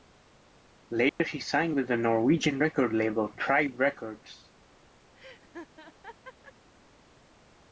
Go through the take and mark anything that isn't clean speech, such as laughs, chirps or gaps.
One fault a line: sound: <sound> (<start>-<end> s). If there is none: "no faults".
sound: dropout (1.1-1.2 s)
sound: laugh (5.1-6.5 s)